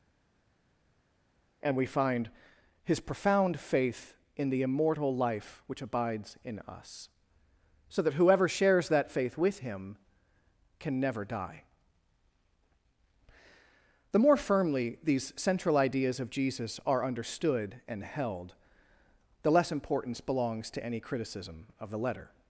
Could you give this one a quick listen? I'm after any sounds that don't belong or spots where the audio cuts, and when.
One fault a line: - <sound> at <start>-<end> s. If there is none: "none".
none